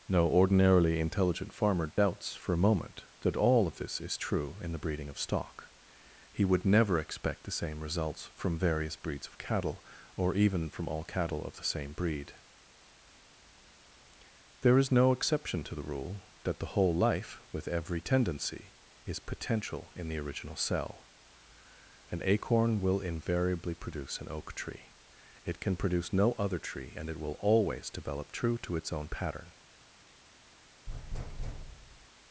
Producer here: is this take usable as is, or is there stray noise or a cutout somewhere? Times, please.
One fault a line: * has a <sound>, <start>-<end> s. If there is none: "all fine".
* has a dropout, 1.9-2.0 s
* has a thud, 30.9-32.1 s